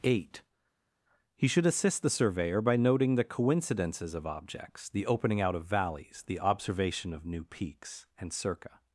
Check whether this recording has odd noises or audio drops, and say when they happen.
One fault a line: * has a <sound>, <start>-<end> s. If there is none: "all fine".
all fine